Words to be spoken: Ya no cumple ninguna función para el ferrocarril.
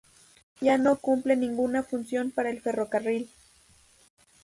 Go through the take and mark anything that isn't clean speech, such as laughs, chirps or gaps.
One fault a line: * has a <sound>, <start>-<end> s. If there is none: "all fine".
all fine